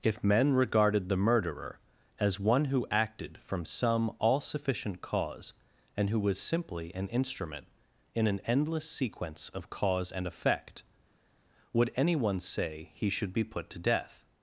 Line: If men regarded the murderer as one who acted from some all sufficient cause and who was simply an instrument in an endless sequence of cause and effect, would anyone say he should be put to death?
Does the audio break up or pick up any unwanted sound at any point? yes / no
no